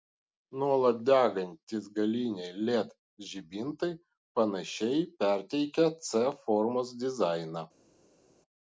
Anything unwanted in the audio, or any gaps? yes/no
no